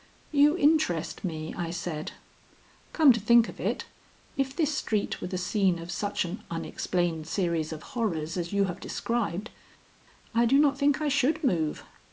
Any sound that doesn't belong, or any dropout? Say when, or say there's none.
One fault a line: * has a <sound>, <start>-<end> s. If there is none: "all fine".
all fine